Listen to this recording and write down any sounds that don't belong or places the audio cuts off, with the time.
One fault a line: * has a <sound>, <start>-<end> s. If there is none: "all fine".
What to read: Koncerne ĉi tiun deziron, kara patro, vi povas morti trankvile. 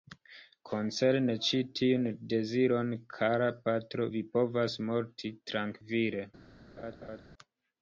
* has a laugh, 6.8-7.2 s